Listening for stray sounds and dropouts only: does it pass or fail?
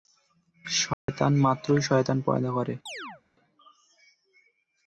fail